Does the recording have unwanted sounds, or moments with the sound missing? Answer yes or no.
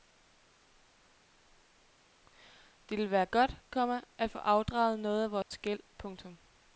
yes